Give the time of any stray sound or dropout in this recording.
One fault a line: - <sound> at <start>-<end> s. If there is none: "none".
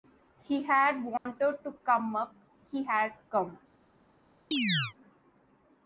- dropout at 1.2-1.3 s
- chirp at 4.5-4.9 s